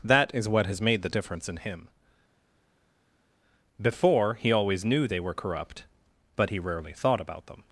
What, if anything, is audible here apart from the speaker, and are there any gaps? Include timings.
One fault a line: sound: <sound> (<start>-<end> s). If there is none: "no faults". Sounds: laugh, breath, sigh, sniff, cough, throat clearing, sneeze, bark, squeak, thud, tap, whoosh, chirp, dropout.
no faults